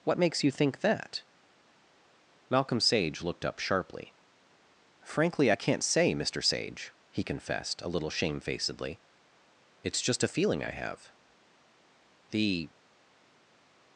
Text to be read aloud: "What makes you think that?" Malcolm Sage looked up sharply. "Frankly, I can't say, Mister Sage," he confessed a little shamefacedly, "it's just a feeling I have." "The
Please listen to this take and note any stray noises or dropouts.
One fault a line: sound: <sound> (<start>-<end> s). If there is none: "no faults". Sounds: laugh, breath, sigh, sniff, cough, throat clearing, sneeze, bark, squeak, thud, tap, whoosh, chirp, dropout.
no faults